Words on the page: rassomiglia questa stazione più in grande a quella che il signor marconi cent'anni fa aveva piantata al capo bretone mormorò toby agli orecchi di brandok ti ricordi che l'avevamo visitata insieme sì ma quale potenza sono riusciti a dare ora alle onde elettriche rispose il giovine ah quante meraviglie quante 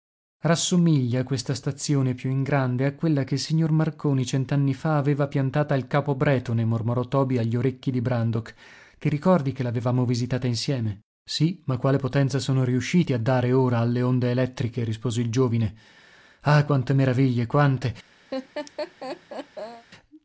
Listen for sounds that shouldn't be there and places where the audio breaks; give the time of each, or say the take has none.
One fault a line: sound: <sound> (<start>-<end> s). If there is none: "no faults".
sound: laugh (18.3-19.9 s)